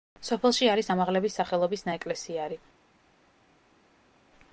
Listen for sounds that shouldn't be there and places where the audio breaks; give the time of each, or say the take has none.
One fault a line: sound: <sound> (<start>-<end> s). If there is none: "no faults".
no faults